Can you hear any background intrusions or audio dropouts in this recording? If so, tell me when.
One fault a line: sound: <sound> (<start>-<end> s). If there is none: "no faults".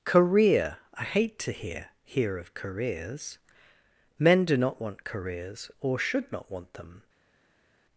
no faults